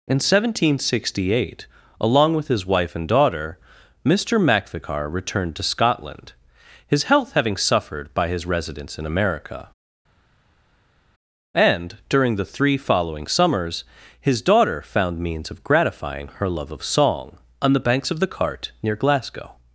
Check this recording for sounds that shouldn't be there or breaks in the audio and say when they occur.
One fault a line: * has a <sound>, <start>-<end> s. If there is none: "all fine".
all fine